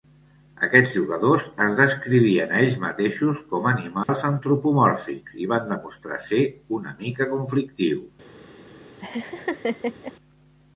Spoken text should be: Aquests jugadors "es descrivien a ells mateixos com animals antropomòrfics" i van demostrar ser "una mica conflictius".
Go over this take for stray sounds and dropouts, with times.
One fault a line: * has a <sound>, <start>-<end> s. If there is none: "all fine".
* has a dropout, 4.0-4.1 s
* has a laugh, 9.0-10.1 s